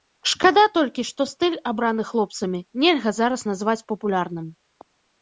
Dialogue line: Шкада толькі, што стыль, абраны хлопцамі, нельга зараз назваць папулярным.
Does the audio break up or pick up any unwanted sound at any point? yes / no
no